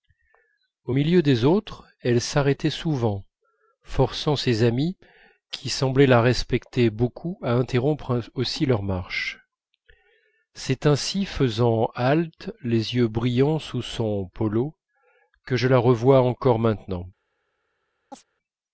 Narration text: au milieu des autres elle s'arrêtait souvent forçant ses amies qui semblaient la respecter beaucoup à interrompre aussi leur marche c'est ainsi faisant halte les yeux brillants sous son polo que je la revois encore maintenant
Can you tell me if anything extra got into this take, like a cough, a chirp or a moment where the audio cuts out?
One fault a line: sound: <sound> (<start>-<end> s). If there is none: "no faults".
sound: chirp (18.1-18.2 s)